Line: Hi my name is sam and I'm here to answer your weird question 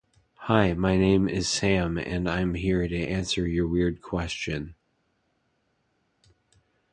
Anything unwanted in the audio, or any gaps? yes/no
no